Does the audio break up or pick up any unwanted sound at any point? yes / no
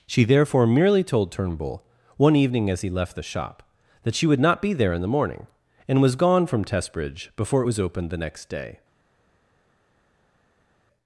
no